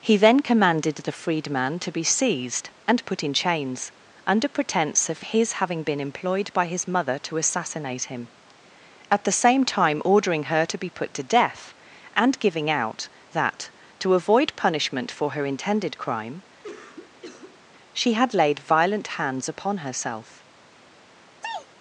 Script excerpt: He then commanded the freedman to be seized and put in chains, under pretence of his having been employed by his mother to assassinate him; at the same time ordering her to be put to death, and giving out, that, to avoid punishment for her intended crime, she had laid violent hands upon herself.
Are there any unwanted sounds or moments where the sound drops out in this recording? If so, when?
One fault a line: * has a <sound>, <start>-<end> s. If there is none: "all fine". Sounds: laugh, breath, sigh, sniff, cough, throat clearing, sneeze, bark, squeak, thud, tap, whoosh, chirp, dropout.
* has a cough, 16.6-17.6 s
* has a sneeze, 21.4-21.7 s